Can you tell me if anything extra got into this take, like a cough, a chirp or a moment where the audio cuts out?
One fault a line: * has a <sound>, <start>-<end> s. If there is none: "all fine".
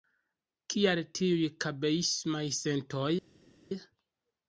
all fine